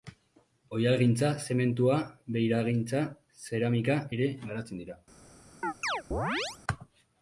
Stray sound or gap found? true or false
true